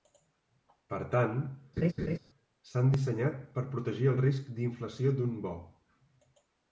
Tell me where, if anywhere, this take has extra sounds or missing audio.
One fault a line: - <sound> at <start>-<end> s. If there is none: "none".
- laugh at 1.8-2.2 s